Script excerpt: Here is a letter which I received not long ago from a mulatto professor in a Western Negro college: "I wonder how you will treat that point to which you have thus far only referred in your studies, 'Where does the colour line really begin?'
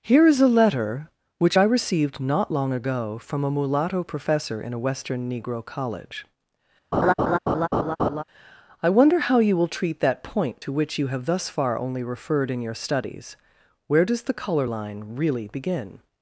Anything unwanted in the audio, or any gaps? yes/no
yes